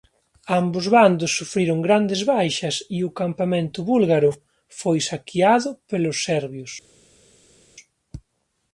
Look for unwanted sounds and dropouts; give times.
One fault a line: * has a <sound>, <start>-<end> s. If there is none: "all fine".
all fine